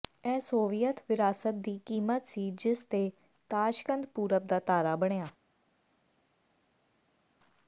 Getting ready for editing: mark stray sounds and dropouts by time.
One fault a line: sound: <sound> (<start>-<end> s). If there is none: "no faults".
no faults